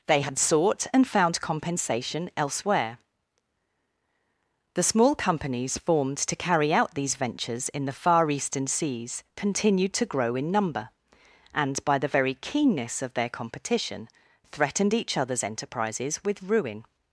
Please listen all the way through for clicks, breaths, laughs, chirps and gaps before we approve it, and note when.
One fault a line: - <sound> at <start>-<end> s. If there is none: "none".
none